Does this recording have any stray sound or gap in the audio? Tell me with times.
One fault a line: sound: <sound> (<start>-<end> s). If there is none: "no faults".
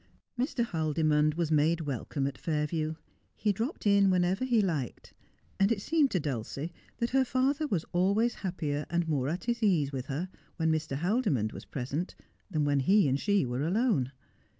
no faults